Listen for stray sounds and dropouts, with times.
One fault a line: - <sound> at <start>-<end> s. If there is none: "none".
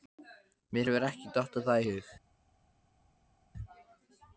none